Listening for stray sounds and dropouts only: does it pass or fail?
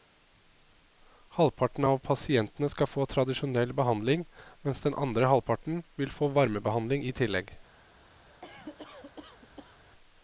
fail